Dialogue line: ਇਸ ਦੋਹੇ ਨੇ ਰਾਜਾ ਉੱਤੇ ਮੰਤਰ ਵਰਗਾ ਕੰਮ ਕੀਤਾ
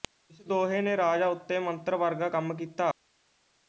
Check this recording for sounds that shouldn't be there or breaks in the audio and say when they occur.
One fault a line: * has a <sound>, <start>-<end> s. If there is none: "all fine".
all fine